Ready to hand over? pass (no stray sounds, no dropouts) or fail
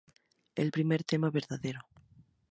pass